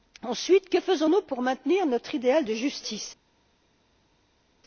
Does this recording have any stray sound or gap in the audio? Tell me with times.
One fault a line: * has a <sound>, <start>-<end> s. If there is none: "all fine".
all fine